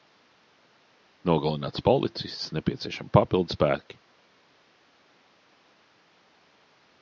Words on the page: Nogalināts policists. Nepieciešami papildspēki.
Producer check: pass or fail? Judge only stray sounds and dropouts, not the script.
pass